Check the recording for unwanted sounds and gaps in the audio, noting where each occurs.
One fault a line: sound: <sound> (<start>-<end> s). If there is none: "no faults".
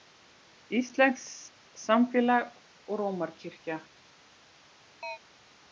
sound: chirp (5.0-5.2 s)